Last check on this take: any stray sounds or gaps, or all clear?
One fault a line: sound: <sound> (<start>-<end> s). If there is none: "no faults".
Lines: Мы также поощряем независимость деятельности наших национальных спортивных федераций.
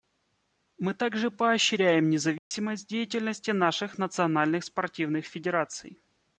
sound: dropout (2.4-2.5 s)